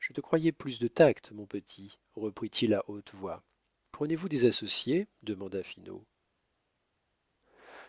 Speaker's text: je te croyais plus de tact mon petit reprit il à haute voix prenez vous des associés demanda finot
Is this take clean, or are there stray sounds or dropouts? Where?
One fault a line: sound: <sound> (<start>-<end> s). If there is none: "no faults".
no faults